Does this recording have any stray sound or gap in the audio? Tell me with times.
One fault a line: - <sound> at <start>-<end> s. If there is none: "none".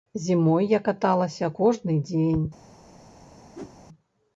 - whoosh at 3.5-3.8 s